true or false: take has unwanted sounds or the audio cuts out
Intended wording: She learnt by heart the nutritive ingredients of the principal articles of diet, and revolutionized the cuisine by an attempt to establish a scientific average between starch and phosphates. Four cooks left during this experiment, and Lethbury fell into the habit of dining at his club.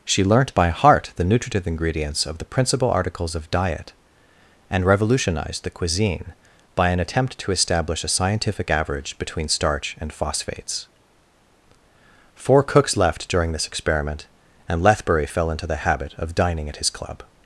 false